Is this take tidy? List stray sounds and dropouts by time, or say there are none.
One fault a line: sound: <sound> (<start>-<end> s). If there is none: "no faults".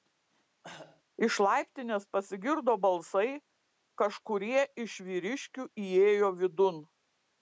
sound: cough (0.6-1.0 s)